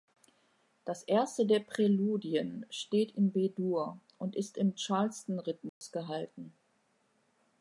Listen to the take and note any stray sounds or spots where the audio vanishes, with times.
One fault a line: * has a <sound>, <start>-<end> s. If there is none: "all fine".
* has a dropout, 5.7-5.8 s